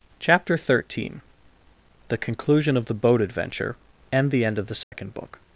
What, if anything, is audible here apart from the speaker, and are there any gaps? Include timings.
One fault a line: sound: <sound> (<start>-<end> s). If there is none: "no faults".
sound: dropout (4.8-4.9 s)